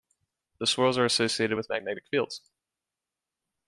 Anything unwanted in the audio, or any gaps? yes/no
no